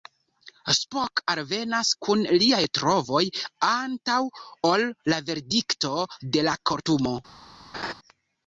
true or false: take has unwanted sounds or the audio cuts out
true